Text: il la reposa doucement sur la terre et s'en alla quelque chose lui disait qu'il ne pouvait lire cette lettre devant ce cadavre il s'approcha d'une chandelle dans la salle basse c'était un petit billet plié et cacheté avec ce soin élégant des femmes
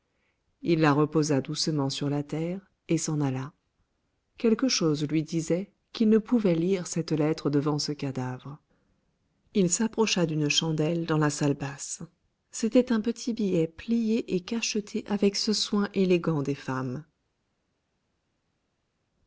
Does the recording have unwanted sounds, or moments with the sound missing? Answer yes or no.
no